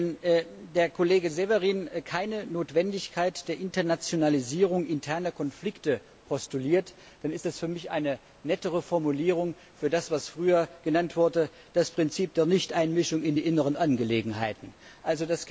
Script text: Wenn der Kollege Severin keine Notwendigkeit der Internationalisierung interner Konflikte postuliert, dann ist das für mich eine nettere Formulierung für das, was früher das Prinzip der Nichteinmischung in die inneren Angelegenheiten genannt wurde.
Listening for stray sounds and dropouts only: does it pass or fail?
pass